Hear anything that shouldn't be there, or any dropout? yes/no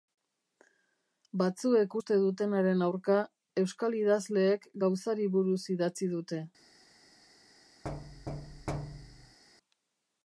yes